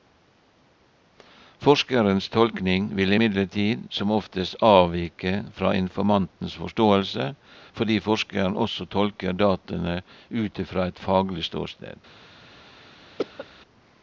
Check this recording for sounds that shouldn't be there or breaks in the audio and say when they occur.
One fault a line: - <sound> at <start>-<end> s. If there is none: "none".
- cough at 13.2-13.5 s